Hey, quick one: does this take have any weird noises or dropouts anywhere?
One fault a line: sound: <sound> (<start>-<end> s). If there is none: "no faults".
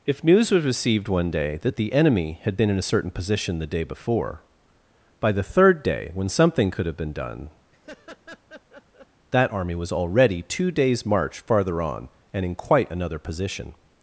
sound: laugh (7.7-9.1 s)